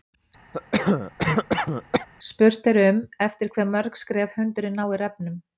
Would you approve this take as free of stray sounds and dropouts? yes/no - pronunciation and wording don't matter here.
no